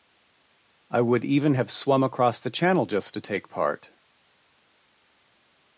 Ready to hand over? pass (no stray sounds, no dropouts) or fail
pass